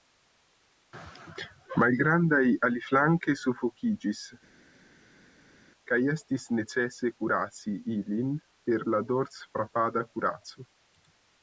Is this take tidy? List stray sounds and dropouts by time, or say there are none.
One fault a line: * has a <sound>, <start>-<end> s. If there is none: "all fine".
all fine